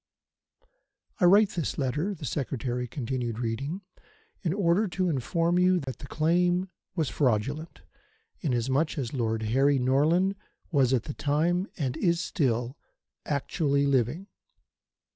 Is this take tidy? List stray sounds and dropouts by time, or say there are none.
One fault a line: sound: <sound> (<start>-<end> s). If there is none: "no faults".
sound: dropout (5.8-5.9 s)